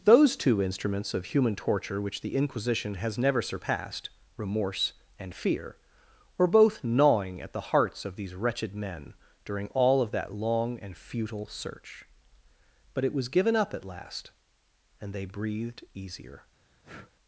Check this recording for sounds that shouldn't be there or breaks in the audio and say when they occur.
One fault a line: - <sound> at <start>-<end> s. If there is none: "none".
- breath at 16.8-17.1 s